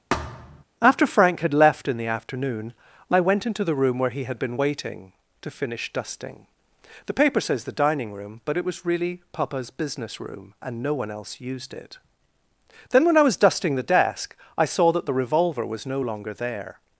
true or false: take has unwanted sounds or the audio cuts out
true